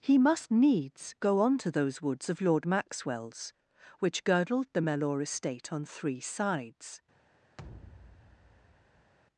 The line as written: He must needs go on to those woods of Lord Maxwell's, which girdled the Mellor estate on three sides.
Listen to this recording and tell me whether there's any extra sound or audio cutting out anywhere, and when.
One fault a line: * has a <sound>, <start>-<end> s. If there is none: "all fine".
* has a thud, 7.6-9.1 s